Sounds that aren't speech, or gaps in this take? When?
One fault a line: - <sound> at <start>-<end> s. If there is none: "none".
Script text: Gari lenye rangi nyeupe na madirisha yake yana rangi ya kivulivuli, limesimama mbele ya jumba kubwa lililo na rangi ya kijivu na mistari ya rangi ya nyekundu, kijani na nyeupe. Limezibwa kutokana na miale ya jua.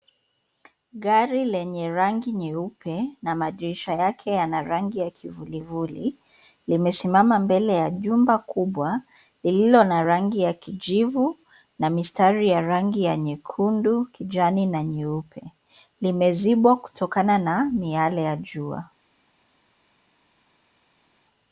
none